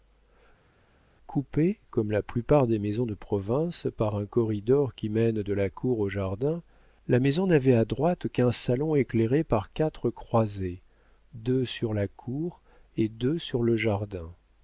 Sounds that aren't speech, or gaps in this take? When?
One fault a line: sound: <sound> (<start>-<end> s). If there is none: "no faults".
no faults